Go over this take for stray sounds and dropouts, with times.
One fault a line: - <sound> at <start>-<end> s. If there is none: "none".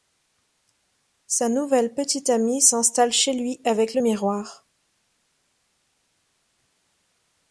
none